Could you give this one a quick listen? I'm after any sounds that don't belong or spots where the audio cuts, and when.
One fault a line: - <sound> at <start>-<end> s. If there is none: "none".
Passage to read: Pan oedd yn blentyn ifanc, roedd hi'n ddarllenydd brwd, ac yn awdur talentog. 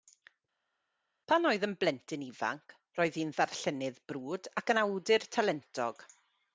none